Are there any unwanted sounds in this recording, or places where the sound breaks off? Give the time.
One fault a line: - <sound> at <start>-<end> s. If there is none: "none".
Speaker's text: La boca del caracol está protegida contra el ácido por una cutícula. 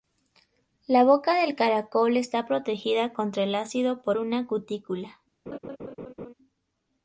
- laugh at 5.5-6.3 s